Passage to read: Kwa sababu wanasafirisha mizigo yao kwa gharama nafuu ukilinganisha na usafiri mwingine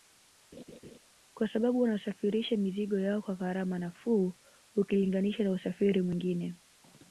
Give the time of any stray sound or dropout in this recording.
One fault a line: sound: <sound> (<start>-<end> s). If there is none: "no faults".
sound: laugh (0.5-1.0 s)